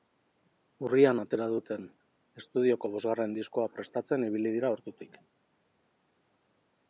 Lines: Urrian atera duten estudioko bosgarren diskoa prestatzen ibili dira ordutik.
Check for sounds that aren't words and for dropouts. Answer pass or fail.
pass